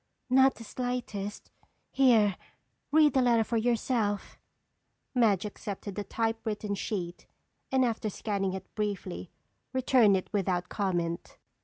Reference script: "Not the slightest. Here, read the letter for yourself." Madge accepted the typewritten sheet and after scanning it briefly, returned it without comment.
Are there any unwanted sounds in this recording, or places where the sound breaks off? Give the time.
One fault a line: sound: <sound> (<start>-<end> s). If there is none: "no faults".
no faults